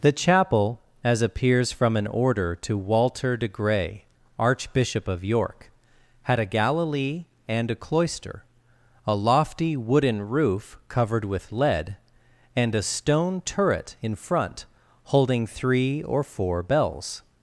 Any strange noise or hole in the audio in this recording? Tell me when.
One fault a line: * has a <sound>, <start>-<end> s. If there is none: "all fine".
all fine